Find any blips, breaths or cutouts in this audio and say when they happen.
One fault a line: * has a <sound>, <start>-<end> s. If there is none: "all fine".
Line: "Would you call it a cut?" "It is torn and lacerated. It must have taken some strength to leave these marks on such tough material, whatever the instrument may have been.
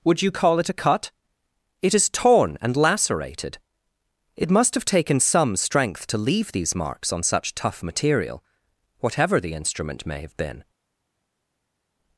all fine